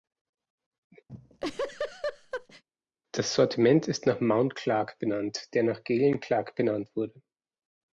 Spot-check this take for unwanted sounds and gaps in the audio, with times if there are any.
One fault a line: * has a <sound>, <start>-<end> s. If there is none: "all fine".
* has a laugh, 1.1-2.6 s